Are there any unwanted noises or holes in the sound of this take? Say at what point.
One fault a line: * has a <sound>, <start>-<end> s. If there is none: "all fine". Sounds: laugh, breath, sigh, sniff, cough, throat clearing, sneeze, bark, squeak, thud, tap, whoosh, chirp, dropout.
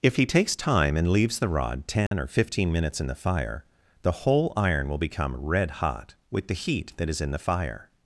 * has a dropout, 2.1-2.1 s